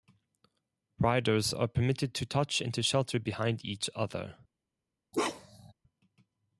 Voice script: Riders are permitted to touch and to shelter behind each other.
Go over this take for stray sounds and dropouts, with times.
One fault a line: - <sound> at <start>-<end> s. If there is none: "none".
- bark at 5.1-5.7 s